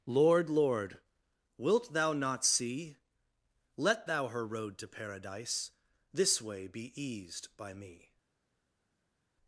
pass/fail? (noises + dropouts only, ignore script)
pass